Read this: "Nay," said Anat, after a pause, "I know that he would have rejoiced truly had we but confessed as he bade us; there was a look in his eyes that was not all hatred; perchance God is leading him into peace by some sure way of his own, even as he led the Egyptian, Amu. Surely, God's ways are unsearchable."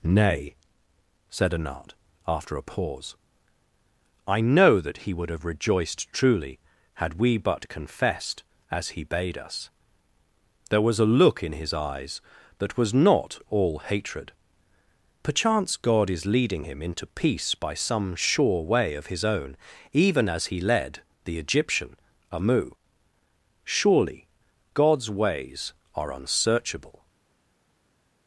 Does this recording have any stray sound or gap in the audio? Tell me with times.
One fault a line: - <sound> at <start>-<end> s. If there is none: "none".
none